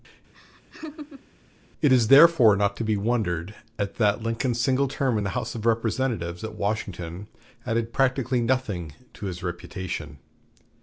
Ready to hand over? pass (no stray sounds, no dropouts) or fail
fail